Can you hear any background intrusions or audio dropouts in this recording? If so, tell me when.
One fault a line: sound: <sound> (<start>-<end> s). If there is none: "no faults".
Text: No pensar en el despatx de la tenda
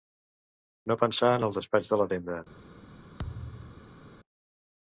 sound: thud (3.2-4.0 s)